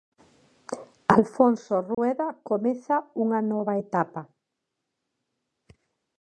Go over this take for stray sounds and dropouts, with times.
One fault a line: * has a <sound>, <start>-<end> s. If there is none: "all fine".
* has a dropout, 1.9-2.0 s